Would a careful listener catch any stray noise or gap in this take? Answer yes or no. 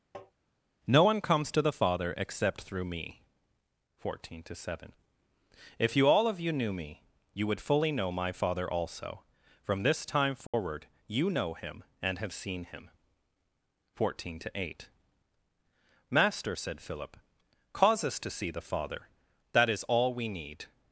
yes